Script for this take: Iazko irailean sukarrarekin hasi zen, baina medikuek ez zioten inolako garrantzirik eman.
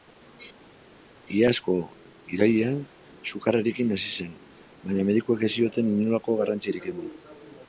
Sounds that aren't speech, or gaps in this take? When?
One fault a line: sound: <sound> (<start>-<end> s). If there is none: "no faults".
no faults